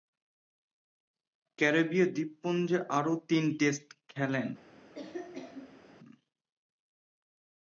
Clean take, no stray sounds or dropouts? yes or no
no